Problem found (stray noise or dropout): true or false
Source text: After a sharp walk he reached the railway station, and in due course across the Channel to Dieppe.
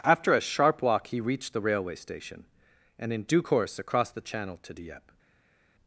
false